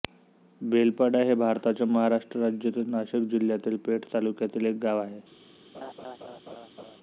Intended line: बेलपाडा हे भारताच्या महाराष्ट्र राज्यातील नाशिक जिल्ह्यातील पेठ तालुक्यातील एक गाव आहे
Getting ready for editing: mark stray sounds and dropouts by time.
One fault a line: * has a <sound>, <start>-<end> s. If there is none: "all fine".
* has a laugh, 5.7-7.0 s